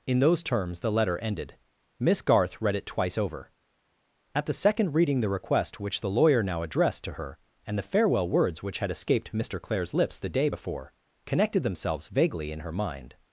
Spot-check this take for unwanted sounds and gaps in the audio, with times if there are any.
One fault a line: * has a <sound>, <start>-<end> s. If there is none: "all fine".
all fine